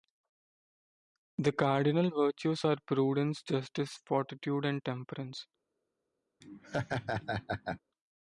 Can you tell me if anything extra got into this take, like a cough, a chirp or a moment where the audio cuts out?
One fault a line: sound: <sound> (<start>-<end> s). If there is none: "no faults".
sound: laugh (6.4-7.8 s)